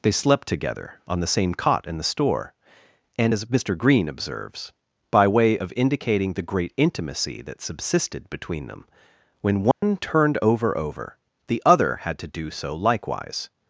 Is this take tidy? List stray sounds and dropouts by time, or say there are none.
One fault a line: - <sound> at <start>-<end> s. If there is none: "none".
- dropout at 9.7-9.8 s